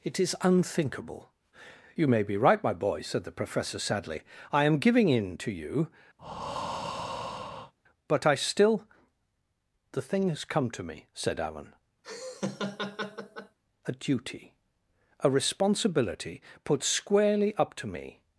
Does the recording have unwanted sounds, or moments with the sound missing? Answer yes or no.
yes